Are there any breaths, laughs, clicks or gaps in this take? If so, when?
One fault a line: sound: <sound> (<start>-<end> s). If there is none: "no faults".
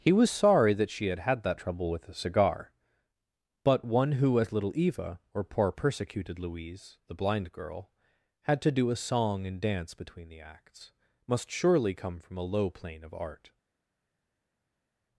no faults